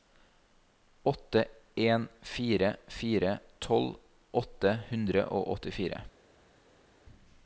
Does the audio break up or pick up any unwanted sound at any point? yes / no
no